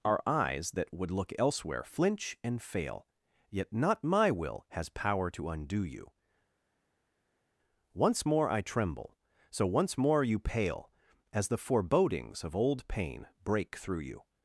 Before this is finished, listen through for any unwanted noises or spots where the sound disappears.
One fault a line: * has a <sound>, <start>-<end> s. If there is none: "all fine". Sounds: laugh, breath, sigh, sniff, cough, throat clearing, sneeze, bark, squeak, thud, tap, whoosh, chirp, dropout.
all fine